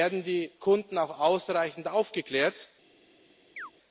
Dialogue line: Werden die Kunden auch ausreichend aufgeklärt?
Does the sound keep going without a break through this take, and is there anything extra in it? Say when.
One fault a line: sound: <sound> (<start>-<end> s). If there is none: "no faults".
sound: chirp (3.6-3.7 s)